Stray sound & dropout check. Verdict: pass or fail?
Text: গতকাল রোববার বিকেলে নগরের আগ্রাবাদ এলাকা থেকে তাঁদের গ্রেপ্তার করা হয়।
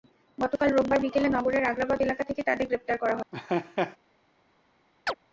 fail